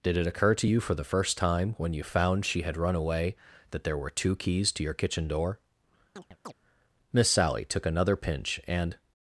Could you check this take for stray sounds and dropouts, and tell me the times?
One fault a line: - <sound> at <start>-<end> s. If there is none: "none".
- chirp at 6.2-6.5 s